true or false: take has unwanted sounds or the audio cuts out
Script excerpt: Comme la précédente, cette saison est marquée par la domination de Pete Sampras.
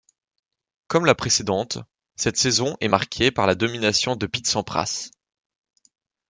false